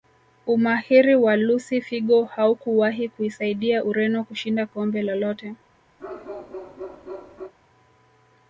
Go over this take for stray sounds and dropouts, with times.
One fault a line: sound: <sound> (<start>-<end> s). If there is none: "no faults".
sound: bark (6.0-7.5 s)